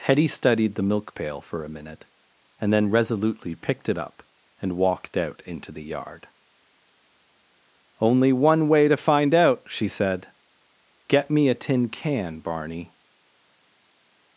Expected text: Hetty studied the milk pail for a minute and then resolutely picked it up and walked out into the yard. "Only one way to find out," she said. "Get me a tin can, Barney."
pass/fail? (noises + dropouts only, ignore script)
pass